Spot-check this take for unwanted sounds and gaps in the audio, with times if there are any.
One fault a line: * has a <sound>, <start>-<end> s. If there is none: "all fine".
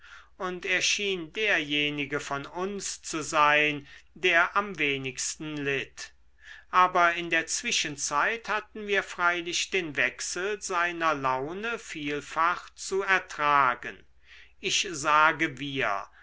all fine